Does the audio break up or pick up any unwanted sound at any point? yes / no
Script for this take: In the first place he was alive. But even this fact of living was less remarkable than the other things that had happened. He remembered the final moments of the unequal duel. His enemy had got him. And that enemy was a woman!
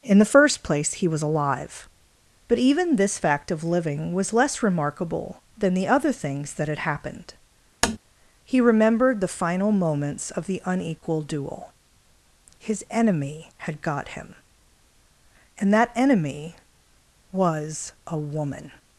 yes